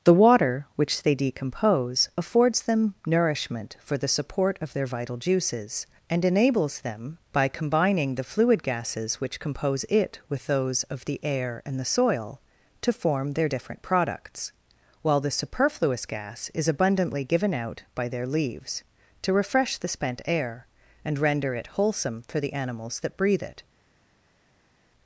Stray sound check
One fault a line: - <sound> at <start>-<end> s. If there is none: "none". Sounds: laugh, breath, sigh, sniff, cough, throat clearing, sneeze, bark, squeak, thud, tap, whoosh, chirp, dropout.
none